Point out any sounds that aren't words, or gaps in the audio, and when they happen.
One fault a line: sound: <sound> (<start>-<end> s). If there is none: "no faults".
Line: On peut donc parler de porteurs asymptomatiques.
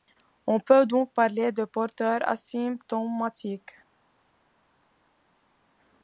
no faults